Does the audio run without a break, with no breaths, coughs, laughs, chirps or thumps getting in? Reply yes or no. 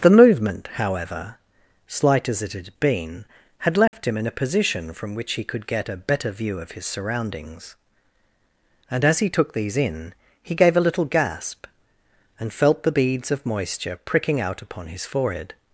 no